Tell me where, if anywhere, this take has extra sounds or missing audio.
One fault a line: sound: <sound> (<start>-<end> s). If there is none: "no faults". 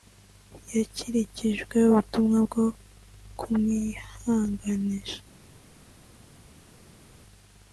no faults